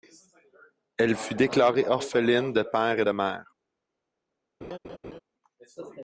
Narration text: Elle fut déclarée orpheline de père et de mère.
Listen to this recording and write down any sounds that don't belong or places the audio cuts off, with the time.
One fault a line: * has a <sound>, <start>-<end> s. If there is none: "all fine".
* has a laugh, 4.6-5.2 s